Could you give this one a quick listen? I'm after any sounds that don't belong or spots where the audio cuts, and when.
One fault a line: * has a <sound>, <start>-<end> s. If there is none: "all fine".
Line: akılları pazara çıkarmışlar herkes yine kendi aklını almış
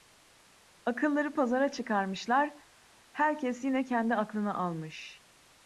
all fine